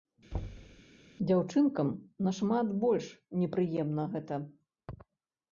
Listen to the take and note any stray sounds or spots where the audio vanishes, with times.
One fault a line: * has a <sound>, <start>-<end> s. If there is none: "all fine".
* has a thud, 0.3-0.8 s